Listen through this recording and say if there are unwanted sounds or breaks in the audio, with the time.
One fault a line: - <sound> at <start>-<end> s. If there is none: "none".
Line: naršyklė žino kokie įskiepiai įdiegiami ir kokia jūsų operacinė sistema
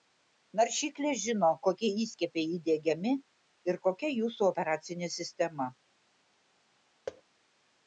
- thud at 7.1-7.2 s